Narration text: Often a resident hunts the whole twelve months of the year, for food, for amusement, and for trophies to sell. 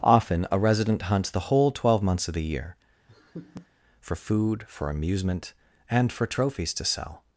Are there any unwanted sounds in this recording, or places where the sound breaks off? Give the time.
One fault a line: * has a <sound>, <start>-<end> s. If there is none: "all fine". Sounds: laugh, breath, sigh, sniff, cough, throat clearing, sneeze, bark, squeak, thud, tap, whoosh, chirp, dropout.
* has a laugh, 3.1-3.7 s